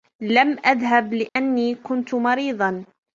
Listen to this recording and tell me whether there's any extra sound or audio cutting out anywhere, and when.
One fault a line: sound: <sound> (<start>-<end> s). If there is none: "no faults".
sound: dropout (1.3-1.4 s)